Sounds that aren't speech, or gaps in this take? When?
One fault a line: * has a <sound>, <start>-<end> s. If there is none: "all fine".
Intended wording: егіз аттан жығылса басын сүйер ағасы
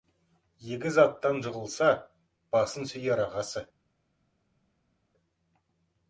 all fine